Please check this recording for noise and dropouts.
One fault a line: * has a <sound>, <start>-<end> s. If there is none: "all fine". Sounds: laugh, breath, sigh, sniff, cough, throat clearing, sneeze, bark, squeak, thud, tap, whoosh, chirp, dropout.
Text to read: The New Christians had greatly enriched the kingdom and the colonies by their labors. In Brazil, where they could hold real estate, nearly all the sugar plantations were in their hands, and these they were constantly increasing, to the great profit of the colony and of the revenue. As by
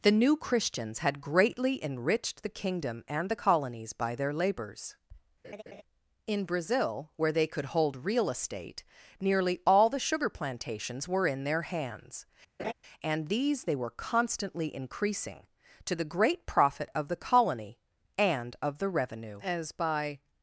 * has a laugh, 5.4-5.8 s
* has a laugh, 12.6-12.7 s